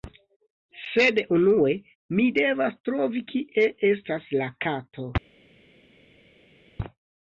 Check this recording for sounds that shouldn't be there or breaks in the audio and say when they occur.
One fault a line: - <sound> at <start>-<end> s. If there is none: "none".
none